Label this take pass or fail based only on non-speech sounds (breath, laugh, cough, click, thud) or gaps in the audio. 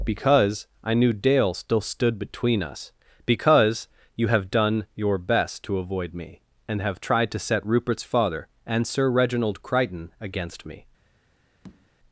fail